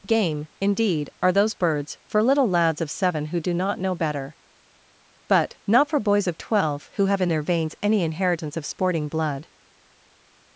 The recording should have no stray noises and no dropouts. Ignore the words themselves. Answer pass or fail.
pass